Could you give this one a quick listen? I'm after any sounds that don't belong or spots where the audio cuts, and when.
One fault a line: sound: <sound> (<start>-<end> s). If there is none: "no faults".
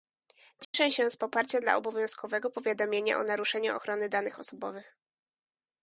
sound: dropout (0.6-0.7 s)